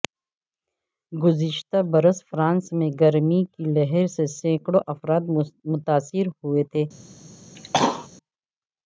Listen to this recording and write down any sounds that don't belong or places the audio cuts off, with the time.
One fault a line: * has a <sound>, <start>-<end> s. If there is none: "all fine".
* has a cough, 7.6-8.1 s